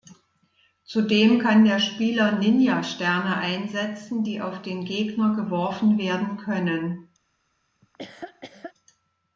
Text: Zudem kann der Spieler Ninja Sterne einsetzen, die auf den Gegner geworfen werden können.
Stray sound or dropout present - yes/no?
yes